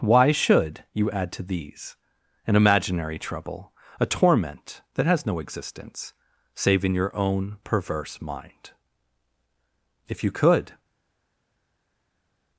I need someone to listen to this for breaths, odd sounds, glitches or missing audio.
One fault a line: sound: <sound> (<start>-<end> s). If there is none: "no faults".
no faults